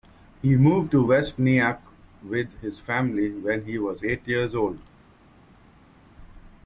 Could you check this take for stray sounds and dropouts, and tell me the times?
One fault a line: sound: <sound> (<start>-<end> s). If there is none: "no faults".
no faults